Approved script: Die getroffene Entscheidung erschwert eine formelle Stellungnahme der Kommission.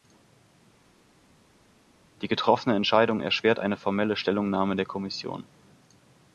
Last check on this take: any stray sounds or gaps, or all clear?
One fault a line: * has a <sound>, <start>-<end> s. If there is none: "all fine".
all fine